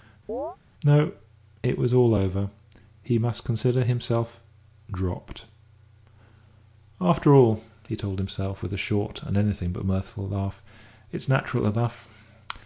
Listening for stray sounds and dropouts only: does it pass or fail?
fail